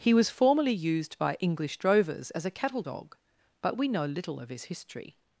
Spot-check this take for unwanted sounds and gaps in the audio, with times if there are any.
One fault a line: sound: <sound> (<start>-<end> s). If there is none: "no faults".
no faults